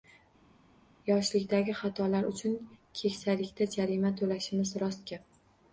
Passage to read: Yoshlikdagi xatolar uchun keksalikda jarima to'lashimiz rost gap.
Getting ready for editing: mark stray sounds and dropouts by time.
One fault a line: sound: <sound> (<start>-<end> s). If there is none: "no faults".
no faults